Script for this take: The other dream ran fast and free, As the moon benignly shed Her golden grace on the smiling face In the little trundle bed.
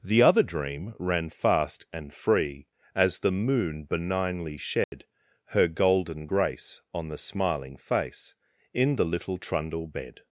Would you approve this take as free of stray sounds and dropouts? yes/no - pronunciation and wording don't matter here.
no